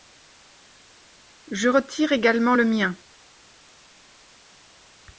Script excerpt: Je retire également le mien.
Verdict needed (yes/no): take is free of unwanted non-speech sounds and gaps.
yes